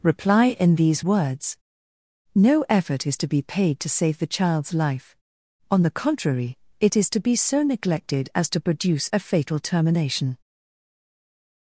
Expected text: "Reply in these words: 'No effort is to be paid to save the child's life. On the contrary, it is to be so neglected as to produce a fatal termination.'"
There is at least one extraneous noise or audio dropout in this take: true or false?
false